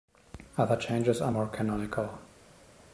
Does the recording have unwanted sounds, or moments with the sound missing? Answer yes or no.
no